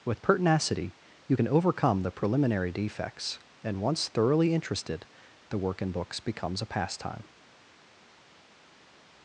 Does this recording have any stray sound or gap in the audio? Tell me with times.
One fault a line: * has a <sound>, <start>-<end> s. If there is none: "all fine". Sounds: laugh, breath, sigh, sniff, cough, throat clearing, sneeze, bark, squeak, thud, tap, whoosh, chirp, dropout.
all fine